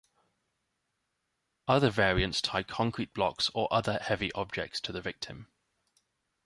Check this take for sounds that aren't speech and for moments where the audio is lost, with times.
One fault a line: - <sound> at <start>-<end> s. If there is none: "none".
none